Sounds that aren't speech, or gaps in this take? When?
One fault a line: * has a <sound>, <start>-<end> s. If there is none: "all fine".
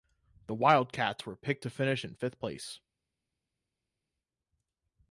all fine